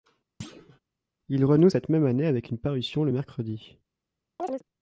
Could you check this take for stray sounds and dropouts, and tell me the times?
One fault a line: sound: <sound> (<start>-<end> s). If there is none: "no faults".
sound: thud (0.4-0.8 s)
sound: chirp (4.4-4.6 s)